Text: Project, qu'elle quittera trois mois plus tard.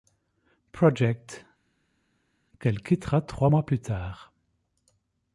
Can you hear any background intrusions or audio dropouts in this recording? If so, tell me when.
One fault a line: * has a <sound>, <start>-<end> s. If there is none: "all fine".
all fine